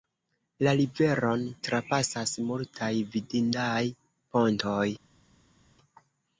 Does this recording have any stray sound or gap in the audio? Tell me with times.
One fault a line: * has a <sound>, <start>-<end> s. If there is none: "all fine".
all fine